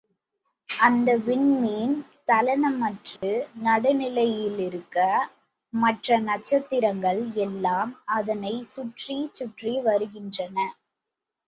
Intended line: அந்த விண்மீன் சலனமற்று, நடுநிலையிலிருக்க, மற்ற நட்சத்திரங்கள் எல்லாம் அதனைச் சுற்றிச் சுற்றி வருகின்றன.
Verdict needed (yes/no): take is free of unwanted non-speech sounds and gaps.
no